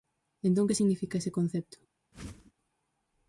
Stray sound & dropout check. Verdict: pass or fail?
fail